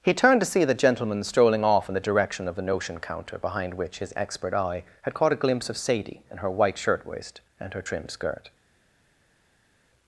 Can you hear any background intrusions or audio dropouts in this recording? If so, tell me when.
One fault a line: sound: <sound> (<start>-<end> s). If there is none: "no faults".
no faults